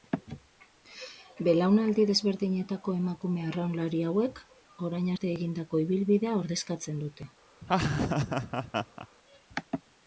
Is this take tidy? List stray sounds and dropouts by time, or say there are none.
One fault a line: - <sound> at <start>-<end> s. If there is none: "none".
- laugh at 7.6-9.1 s